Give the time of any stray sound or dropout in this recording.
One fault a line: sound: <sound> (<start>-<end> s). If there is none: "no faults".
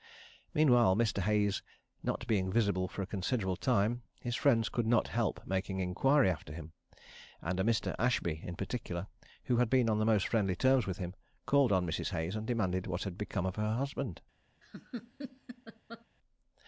sound: laugh (14.6-16.1 s)